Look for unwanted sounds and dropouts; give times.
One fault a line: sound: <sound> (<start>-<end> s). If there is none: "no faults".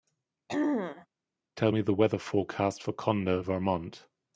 sound: throat clearing (0.5-1.1 s)